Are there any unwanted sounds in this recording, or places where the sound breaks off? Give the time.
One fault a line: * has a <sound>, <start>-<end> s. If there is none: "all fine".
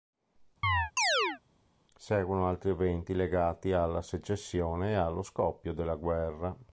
* has a chirp, 0.6-1.4 s